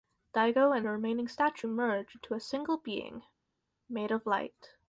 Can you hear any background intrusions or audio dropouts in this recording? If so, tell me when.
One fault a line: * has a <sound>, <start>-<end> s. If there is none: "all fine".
all fine